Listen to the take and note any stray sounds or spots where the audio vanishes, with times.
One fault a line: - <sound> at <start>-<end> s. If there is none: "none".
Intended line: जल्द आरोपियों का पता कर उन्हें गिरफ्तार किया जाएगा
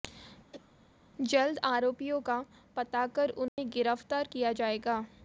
- cough at 0.5-0.7 s
- dropout at 3.5-3.6 s